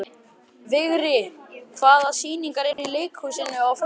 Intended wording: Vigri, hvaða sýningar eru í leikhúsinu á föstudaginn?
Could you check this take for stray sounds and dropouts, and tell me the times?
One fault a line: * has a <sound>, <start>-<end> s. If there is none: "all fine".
* has a dropout, 2.7-2.8 s